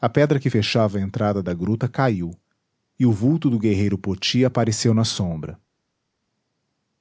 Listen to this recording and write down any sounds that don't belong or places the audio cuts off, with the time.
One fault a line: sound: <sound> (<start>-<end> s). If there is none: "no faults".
no faults